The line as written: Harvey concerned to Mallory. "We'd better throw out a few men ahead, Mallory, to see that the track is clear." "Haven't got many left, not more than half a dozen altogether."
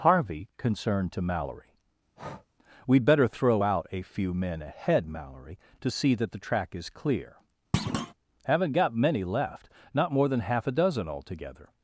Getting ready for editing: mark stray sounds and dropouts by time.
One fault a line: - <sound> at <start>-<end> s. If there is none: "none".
- breath at 2.2-2.5 s
- thud at 7.7-8.1 s